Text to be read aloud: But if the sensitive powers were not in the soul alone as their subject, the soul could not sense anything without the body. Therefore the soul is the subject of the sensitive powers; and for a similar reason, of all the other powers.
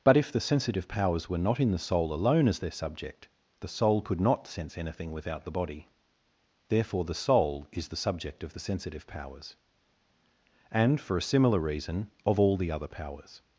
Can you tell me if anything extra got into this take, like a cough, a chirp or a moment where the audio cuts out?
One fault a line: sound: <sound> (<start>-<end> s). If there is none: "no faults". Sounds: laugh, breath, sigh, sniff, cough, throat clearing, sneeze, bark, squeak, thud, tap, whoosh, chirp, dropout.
no faults